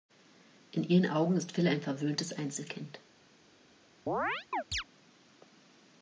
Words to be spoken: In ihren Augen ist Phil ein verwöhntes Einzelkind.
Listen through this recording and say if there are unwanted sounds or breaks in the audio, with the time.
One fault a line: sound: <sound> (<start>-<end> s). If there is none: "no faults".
sound: chirp (4.1-4.8 s)